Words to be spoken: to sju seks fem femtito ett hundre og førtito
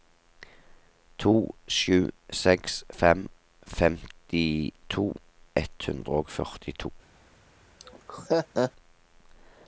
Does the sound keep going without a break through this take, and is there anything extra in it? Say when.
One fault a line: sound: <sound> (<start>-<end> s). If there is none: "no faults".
sound: laugh (7.8-8.7 s)